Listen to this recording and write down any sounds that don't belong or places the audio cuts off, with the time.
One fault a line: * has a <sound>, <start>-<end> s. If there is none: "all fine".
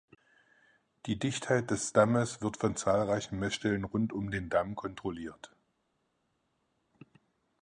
all fine